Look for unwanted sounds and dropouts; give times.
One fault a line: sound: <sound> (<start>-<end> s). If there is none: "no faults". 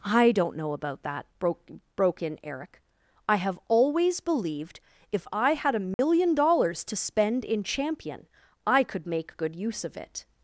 sound: dropout (5.9-6.0 s)